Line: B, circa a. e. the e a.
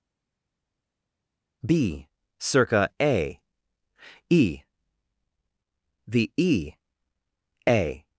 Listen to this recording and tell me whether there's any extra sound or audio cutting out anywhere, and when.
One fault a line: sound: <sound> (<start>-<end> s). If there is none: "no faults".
no faults